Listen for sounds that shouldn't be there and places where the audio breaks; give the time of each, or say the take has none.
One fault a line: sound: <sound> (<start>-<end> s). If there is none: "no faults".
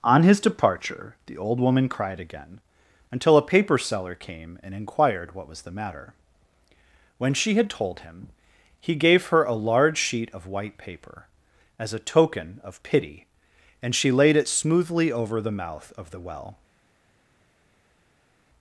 no faults